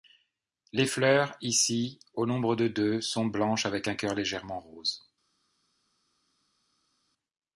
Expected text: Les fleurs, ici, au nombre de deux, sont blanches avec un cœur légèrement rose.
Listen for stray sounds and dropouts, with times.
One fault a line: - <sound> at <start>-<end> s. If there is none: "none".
none